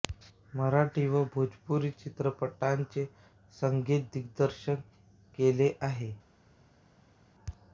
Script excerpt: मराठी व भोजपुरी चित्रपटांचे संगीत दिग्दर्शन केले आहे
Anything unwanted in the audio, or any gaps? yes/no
no